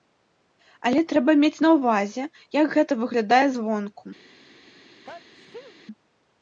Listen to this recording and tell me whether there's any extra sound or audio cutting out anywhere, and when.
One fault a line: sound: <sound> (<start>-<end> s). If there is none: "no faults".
sound: sneeze (5.0-5.8 s)